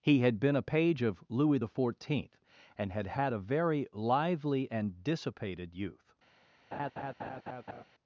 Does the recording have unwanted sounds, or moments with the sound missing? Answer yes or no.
yes